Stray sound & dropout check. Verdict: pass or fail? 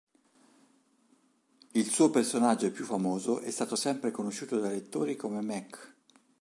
pass